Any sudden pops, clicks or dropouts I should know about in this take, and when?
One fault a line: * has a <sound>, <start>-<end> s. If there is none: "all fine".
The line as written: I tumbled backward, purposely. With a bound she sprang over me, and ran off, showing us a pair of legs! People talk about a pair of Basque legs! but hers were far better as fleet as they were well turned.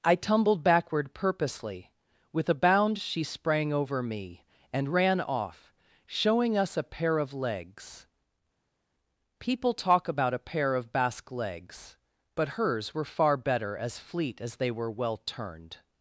all fine